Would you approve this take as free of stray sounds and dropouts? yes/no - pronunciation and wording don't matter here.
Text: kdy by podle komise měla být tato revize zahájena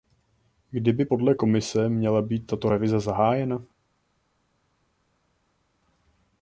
yes